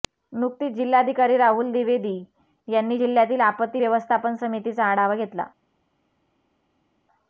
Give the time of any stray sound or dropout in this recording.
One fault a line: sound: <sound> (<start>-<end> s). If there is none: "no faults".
no faults